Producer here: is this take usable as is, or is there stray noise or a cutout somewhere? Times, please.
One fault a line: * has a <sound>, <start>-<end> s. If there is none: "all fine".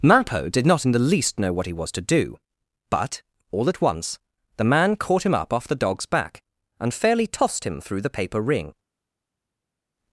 all fine